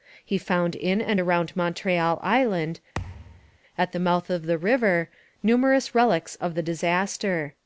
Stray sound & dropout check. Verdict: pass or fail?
fail